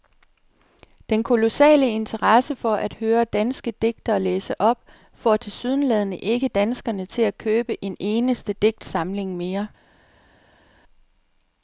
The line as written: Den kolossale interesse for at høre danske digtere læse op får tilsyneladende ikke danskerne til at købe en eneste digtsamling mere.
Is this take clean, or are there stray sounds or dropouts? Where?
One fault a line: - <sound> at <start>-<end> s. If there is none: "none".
none